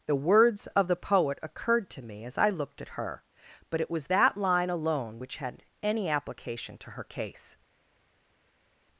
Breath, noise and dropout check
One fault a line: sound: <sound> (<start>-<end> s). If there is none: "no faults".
no faults